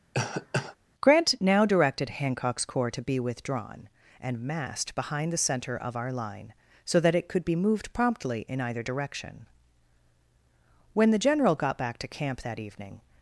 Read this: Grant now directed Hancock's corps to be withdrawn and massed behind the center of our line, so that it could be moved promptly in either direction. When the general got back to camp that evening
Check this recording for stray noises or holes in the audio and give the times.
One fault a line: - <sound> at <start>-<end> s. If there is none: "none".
- cough at 0.1-0.8 s